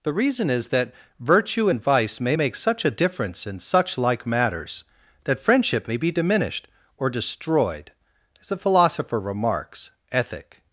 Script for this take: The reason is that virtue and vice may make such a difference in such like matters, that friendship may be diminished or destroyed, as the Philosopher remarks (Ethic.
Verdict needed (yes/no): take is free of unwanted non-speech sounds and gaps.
yes